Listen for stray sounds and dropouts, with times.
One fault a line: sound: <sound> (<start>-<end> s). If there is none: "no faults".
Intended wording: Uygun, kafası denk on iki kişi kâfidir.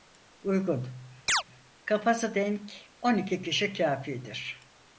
sound: chirp (1.3-1.4 s)